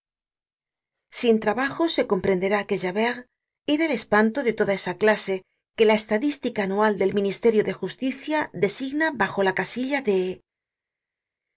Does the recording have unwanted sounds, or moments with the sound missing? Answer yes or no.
no